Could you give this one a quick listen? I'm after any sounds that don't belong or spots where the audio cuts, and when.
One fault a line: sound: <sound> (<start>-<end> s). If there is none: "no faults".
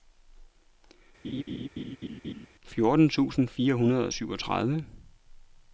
sound: laugh (1.2-2.5 s)